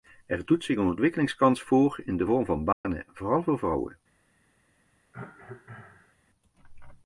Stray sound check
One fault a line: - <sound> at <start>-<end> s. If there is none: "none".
- dropout at 2.7-2.8 s
- cough at 5.1-6.2 s